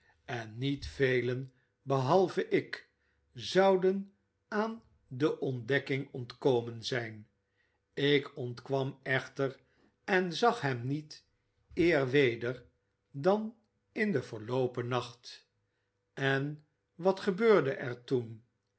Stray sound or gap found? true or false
false